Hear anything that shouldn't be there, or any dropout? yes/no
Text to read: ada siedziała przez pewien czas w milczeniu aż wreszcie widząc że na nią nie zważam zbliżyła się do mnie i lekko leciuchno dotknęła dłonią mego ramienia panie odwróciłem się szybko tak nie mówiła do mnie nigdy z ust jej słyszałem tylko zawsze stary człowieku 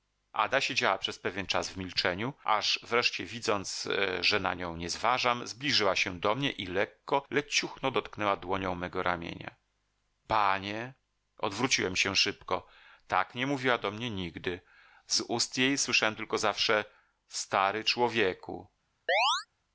yes